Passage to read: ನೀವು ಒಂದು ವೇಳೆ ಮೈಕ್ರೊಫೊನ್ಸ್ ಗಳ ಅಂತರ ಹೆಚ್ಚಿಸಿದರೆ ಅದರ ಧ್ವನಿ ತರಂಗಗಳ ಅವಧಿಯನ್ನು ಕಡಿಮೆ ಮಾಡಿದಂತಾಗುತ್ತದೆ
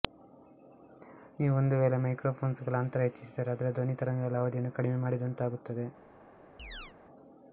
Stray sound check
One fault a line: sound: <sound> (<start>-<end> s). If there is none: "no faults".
sound: chirp (6.6-6.9 s)